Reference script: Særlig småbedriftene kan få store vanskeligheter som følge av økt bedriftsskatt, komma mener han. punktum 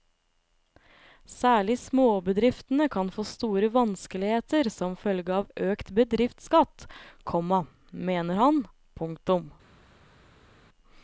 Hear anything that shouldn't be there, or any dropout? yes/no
no